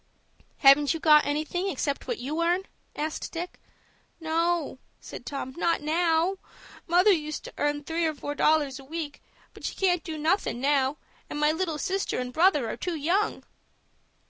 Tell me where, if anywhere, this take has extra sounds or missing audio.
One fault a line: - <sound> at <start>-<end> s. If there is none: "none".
none